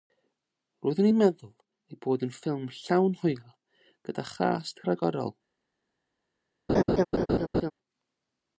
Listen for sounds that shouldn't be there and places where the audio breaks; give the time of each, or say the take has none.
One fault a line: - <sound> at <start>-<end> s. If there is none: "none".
- laugh at 6.7-7.7 s